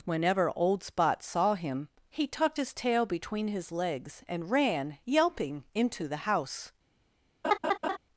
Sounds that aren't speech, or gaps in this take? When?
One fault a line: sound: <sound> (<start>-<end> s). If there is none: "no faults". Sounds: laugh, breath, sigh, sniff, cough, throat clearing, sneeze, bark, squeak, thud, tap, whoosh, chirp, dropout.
sound: laugh (7.4-8.0 s)